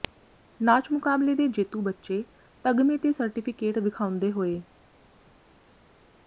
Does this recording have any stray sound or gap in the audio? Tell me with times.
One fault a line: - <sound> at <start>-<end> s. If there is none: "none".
none